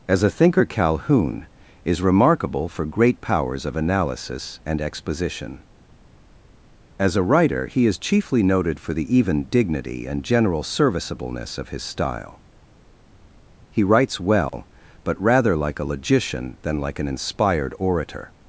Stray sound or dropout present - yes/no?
yes